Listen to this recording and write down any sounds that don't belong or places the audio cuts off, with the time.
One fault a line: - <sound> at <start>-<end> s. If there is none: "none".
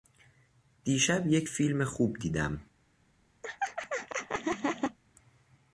- laugh at 3.4-5.0 s